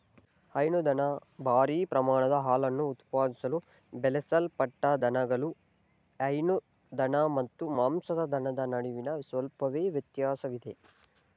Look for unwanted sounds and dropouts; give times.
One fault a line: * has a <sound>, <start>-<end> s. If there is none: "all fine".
all fine